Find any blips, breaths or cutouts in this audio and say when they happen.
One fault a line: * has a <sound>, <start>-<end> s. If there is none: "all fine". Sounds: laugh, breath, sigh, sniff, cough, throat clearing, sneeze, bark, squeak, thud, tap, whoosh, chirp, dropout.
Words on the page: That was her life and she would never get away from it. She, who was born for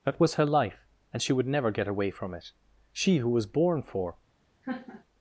* has a laugh, 4.6-5.0 s